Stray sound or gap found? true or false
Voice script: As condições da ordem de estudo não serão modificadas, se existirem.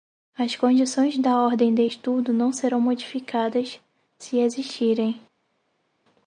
false